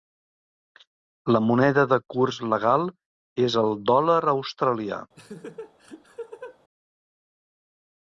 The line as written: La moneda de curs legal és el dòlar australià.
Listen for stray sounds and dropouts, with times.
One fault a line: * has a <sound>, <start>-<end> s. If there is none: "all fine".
* has a laugh, 5.1-6.6 s